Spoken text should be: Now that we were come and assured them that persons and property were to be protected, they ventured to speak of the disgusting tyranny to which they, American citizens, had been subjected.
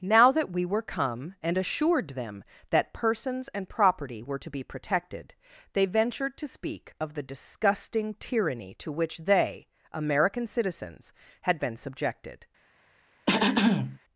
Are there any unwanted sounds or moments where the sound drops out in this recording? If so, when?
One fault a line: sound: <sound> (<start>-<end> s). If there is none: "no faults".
sound: throat clearing (13.3-14.0 s)